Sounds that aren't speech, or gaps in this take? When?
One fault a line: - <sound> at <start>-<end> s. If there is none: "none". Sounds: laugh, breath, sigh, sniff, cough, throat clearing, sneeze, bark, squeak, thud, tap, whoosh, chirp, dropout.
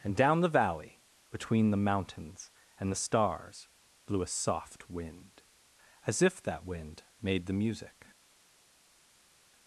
none